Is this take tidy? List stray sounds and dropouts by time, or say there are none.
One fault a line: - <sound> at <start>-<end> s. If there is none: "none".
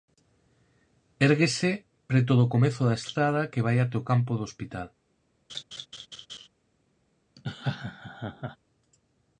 - laugh at 5.5-6.5 s
- laugh at 7.4-8.6 s